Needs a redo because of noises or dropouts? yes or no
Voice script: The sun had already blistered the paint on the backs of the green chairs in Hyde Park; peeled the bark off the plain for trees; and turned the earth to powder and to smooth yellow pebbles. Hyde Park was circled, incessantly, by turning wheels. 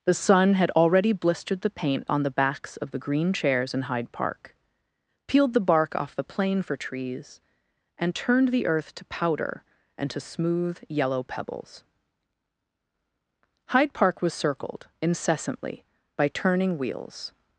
no